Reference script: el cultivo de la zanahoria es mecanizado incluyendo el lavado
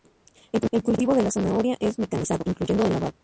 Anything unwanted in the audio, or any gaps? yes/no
no